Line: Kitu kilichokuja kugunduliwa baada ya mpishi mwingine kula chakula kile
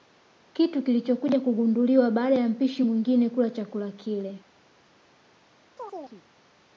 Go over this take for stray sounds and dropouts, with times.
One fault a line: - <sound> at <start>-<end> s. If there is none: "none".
- chirp at 5.8-6.2 s